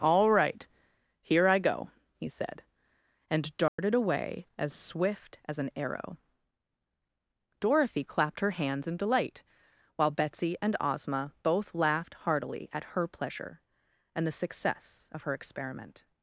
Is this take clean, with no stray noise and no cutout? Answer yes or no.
no